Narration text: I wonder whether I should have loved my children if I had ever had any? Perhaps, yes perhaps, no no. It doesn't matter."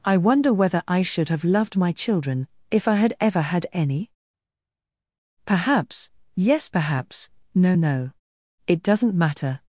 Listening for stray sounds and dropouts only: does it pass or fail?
pass